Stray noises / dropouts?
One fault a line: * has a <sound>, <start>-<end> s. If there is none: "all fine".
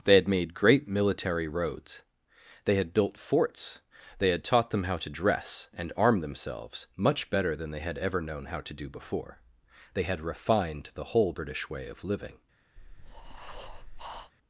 * has a breath, 12.8-14.3 s